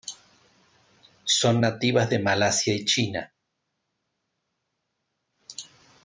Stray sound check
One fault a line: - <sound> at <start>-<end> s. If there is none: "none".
none